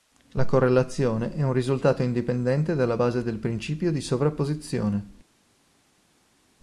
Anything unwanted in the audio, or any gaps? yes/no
no